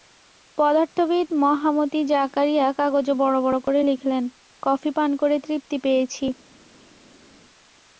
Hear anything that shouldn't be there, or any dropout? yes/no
no